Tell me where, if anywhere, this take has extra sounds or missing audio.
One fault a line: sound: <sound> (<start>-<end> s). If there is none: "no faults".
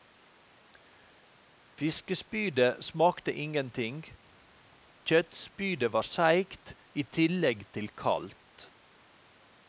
no faults